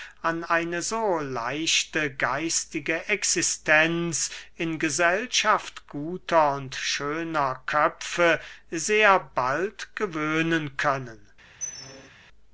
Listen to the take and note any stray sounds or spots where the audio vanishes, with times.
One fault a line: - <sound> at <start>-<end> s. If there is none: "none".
- squeak at 11.6-12.1 s